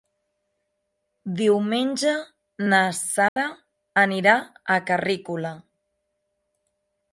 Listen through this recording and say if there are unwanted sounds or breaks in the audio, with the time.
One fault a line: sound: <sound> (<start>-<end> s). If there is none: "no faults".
sound: dropout (3.3-3.4 s)